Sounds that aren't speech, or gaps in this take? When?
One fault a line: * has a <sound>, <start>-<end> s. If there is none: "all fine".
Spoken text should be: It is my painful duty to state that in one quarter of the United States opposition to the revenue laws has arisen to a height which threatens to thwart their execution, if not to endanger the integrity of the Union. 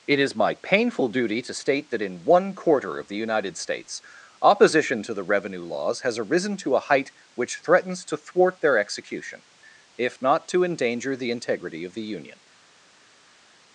all fine